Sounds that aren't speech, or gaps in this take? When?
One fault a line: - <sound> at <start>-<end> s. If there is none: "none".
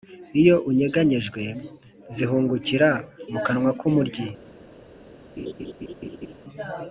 - laugh at 5.4-6.3 s